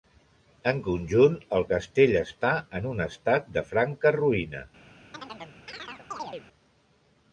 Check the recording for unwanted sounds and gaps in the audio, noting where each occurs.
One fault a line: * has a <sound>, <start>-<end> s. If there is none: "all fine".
* has a chirp, 5.1-6.5 s